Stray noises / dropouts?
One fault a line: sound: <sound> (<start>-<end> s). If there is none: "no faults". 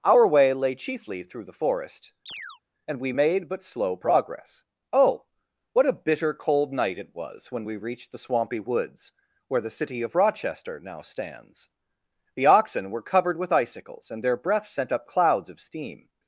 sound: chirp (2.3-2.6 s)